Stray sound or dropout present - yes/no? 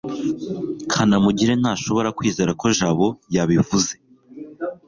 no